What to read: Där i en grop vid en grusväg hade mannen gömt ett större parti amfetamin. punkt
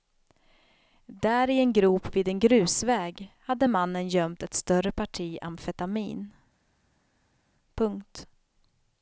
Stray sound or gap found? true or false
false